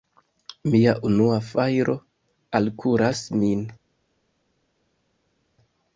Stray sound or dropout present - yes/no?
no